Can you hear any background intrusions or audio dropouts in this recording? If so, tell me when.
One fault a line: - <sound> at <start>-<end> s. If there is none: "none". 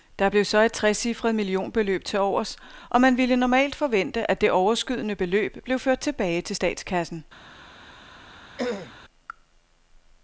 - throat clearing at 8.6-9.0 s